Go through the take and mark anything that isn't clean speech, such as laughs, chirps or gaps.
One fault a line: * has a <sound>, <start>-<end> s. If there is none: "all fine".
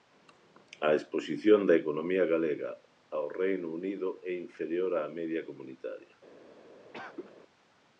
* has a cough, 6.9-7.3 s